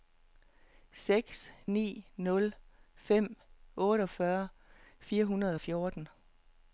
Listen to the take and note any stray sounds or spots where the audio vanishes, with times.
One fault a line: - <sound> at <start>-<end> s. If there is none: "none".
none